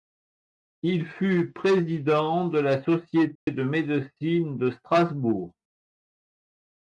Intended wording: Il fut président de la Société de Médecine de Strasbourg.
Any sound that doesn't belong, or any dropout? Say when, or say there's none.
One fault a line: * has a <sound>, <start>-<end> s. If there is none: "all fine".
* has a dropout, 3.4-3.5 s